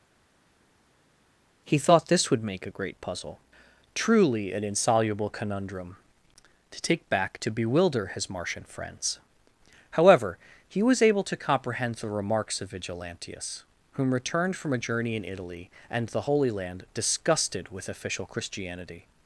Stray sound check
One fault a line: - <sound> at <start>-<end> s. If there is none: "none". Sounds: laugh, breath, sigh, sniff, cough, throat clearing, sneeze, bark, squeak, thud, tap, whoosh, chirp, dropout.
none